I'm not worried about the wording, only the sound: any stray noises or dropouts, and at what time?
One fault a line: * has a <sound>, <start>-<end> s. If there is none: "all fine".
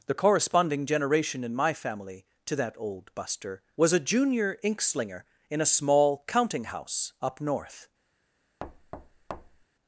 * has a thud, 8.6-9.6 s